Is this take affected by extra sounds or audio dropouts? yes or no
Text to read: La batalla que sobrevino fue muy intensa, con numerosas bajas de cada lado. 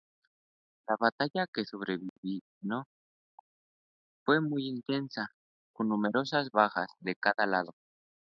yes